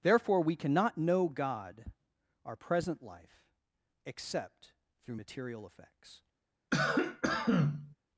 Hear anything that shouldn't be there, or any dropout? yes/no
yes